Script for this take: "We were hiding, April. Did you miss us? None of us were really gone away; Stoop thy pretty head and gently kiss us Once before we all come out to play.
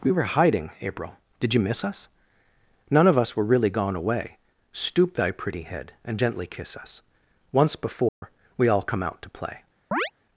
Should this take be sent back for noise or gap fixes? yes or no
yes